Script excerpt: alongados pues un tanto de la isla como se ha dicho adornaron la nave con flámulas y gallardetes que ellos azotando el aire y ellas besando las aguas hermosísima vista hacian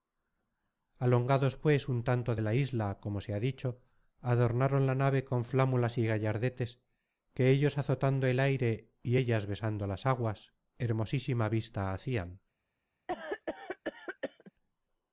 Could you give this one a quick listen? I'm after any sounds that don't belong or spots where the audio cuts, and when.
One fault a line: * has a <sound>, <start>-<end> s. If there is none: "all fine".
* has a cough, 13.1-14.5 s